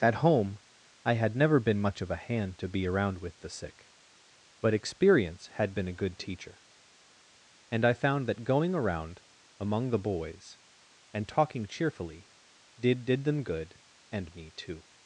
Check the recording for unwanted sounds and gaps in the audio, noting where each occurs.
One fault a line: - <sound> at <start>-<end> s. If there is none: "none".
none